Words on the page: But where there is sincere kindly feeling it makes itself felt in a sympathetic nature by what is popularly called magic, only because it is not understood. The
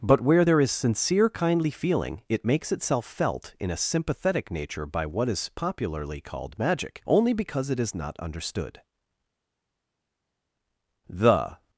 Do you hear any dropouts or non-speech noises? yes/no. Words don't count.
no